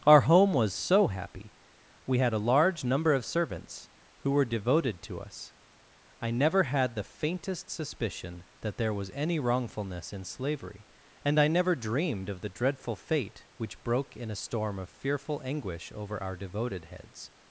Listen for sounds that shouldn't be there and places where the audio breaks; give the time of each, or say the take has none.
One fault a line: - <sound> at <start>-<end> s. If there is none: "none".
none